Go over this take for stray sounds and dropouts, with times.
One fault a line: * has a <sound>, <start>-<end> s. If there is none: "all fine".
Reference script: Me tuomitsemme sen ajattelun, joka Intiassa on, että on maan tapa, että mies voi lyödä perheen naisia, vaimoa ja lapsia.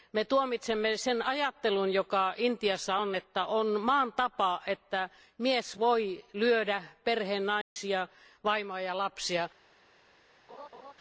* has a dropout, 7.6-7.8 s
* has a laugh, 10.5-10.9 s